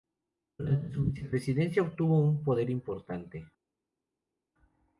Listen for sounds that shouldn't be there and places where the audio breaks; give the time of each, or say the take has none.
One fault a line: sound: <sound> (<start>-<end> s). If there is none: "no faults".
no faults